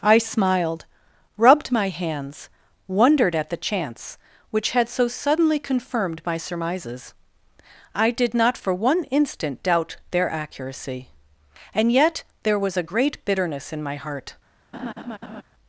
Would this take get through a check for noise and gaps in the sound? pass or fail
fail